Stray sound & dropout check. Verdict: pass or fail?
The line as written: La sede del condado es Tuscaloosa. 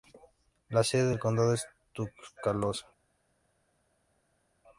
pass